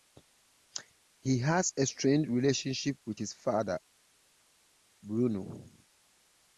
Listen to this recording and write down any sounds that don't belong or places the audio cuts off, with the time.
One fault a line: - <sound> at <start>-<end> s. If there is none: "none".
none